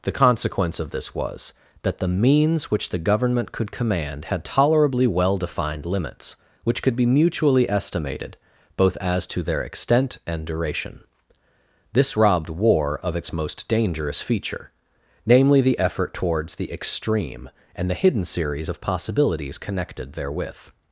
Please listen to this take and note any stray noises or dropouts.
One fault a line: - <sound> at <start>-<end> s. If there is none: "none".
none